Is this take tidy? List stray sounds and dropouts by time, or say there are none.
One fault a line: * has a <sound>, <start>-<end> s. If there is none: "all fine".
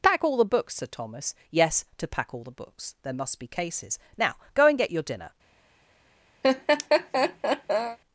* has a laugh, 6.4-8.0 s